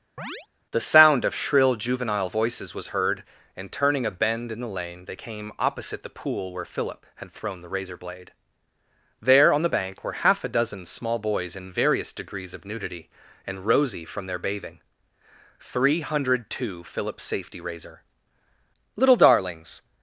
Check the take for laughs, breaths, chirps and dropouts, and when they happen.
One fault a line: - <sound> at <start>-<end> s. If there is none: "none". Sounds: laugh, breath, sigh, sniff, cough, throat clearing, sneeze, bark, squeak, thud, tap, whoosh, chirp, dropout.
- chirp at 0.2-0.5 s